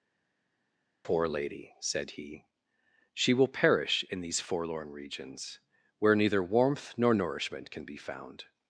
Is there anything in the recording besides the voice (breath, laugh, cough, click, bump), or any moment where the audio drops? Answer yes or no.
no